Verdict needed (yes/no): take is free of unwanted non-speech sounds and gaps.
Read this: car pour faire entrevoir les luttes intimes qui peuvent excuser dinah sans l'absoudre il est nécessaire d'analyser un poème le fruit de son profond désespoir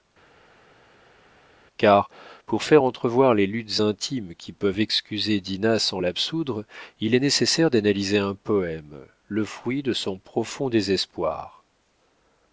yes